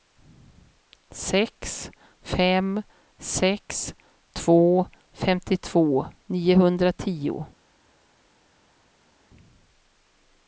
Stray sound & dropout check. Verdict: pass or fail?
pass